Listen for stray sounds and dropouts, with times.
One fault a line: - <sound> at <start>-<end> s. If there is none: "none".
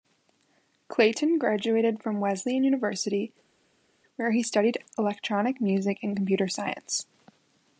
none